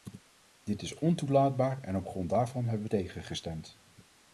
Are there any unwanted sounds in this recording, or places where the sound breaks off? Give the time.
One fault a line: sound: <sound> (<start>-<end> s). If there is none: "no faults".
no faults